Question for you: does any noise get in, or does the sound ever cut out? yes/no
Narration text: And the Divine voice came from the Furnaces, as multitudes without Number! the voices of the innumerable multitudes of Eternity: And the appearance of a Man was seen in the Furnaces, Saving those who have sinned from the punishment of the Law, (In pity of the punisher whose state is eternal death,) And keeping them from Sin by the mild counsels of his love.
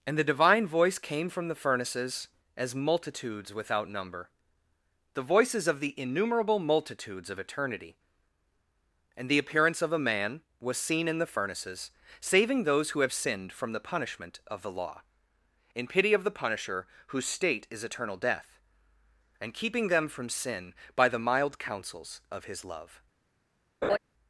yes